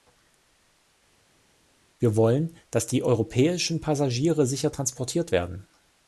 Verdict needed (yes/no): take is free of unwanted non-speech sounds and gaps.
yes